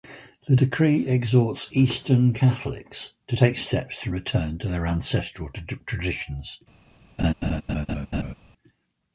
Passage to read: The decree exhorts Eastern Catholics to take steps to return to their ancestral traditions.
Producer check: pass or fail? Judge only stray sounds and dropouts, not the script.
fail